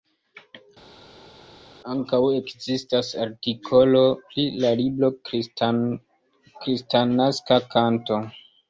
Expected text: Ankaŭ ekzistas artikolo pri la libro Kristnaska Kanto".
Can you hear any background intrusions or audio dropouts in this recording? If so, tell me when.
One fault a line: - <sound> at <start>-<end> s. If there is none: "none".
none